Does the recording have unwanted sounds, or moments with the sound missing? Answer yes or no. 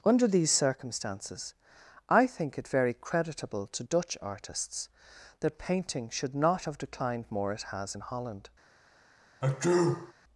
yes